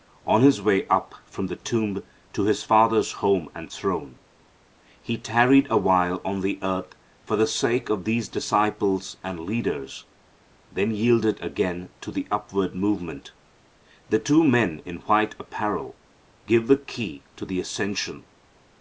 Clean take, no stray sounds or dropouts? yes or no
yes